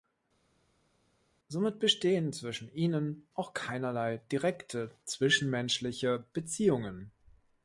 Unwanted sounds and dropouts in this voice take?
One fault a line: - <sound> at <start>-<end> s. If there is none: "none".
none